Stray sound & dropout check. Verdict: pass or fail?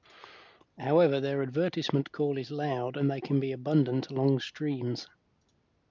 pass